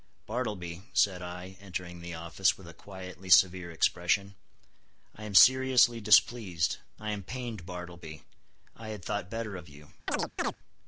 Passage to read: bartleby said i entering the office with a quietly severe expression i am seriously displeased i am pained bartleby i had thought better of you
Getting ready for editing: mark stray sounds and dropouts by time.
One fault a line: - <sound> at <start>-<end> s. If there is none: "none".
- chirp at 10.1-10.6 s